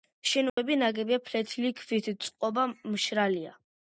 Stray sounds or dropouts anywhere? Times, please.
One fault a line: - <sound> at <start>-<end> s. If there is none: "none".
- dropout at 0.5-0.6 s